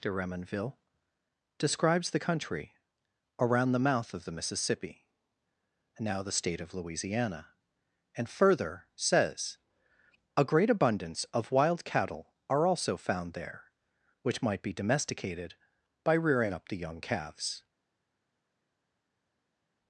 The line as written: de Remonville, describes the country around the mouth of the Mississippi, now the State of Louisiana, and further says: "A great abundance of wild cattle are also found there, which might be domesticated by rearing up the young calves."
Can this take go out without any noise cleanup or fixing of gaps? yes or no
yes